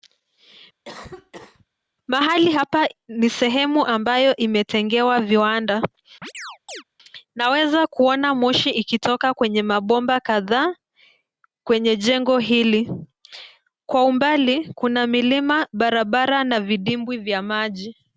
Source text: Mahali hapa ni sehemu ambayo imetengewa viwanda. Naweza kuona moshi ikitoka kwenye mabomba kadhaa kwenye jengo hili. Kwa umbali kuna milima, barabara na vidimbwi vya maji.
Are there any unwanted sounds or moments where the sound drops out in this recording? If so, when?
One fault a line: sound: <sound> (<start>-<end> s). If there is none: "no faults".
sound: cough (0.8-1.7 s)
sound: chirp (6.2-6.8 s)